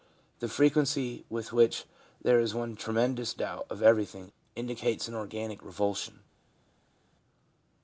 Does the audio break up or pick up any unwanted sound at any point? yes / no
no